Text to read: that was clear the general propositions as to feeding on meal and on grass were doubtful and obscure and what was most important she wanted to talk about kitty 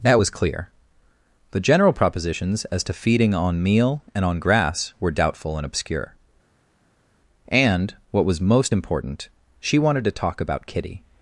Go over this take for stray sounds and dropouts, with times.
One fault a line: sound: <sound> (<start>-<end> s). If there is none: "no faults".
no faults